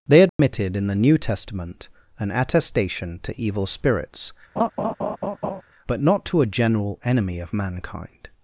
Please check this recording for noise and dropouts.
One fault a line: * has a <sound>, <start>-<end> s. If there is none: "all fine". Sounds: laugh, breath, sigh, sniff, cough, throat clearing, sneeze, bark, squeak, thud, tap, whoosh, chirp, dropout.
* has a dropout, 0.3-0.4 s
* has a laugh, 4.6-5.6 s